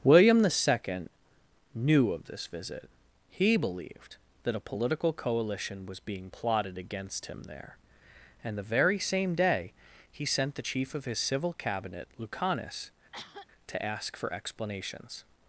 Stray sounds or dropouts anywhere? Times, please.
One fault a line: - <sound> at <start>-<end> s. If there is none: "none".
- cough at 13.1-13.5 s